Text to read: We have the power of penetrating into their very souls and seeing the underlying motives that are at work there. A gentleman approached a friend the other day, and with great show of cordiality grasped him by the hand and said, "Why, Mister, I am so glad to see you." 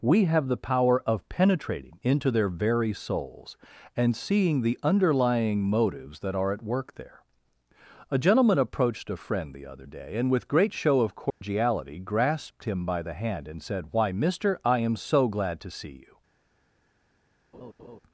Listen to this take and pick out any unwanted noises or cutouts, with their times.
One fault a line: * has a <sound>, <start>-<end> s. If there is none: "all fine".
* has a dropout, 11.3-11.4 s
* has a laugh, 17.5-18.0 s